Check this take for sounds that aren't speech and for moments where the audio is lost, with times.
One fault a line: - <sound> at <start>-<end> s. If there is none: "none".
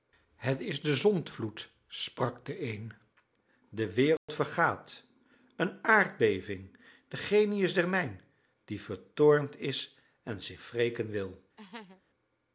- dropout at 4.2-4.3 s
- laugh at 11.6-12.0 s